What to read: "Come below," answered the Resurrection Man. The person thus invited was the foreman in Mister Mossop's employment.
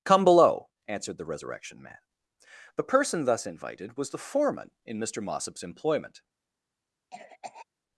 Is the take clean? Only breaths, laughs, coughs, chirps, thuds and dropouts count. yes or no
no